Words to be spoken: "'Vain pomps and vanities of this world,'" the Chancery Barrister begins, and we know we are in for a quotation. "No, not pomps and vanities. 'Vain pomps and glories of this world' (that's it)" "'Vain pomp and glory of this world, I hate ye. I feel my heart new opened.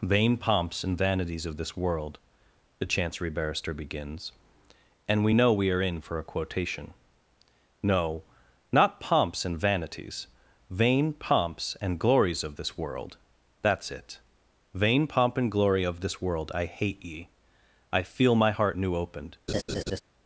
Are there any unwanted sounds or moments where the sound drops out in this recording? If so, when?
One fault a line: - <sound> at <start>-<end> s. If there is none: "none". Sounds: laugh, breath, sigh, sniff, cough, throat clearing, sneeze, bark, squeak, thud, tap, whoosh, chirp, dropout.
- laugh at 19.5-20.0 s